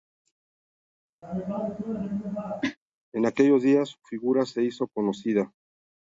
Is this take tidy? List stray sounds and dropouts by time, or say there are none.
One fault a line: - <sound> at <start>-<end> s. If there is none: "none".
- cough at 1.2-2.8 s